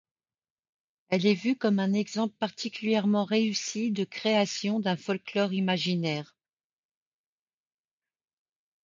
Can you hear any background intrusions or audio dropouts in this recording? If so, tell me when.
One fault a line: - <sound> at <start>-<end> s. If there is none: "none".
none